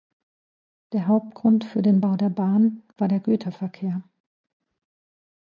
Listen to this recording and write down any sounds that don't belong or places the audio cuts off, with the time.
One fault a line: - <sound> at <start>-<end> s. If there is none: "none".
none